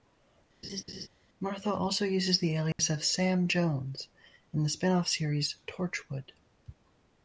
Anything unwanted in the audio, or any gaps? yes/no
yes